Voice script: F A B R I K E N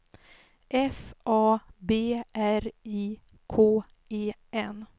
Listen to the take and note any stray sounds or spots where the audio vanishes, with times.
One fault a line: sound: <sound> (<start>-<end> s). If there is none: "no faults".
no faults